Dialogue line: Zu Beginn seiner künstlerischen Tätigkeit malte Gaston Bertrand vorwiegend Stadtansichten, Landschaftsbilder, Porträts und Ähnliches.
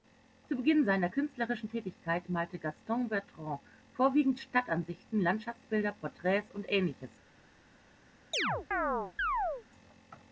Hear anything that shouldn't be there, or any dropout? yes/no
yes